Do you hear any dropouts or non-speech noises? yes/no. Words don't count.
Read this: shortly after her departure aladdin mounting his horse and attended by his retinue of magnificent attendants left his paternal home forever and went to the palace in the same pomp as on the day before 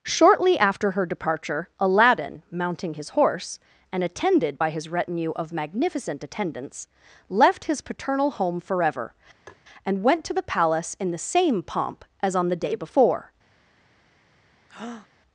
yes